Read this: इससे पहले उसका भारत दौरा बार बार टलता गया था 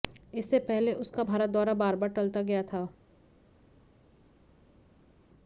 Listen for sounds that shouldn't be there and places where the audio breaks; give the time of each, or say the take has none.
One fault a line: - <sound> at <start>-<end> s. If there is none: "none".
none